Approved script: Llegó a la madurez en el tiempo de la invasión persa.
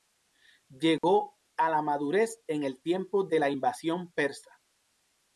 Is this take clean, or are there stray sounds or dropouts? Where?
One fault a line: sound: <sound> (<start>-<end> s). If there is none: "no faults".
sound: dropout (1.0-1.0 s)